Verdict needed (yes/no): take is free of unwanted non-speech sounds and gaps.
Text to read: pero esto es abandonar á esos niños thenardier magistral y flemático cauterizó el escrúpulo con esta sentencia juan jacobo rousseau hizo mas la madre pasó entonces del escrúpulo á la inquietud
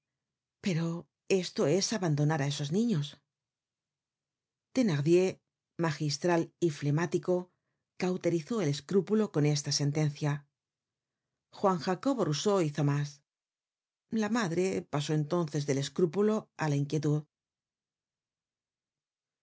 yes